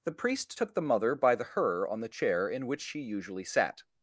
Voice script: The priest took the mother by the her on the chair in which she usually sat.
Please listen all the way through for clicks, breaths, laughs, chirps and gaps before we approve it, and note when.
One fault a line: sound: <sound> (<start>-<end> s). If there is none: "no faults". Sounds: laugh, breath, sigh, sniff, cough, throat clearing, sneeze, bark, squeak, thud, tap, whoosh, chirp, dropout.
no faults